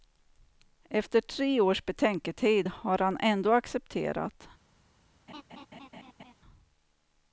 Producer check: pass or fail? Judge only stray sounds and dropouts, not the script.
fail